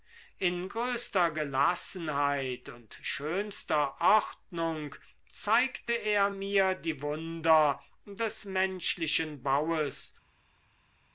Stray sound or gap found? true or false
false